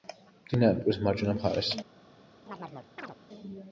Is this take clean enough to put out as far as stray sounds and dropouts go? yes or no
no